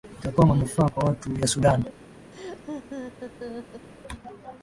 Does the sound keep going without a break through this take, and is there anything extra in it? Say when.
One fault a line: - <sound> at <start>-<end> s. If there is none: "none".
- laugh at 2.3-3.9 s